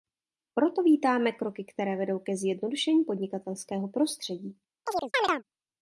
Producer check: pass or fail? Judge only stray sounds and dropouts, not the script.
fail